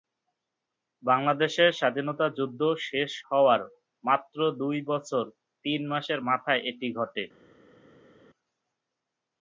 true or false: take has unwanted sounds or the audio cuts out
false